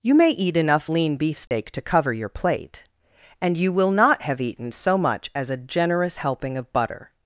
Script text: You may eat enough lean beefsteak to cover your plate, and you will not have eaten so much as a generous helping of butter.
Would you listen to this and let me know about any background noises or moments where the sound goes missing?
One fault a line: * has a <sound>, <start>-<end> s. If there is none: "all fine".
* has a dropout, 1.5-1.5 s